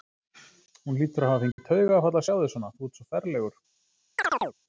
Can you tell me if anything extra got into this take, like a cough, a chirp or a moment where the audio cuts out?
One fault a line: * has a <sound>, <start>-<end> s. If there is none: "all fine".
* has a dropout, 1.5-1.6 s
* has a chirp, 4.2-4.5 s